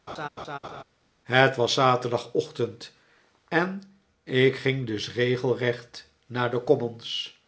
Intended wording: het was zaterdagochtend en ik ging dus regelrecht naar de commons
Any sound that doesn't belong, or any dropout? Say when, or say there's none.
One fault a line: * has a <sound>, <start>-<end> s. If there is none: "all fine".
* has a laugh, 0.1-0.8 s